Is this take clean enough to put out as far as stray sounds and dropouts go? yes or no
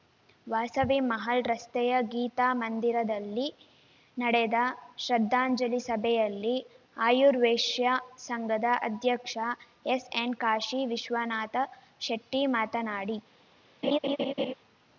no